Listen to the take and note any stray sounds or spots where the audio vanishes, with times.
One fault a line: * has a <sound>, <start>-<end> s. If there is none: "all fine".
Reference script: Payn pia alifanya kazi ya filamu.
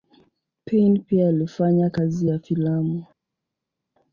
all fine